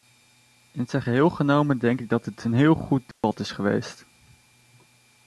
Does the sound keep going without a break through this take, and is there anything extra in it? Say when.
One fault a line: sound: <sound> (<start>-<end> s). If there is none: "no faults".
sound: dropout (3.1-3.2 s)